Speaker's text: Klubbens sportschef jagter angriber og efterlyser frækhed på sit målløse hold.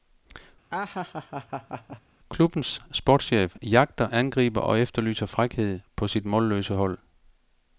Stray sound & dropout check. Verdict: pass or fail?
fail